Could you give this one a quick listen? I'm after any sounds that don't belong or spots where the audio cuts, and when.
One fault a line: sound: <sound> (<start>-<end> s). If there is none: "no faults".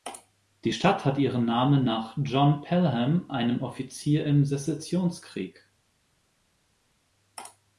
no faults